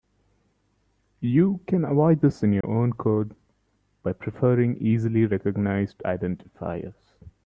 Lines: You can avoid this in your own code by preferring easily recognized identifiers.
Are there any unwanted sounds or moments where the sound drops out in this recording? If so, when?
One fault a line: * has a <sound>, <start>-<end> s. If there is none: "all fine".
* has a dropout, 2.6-2.6 s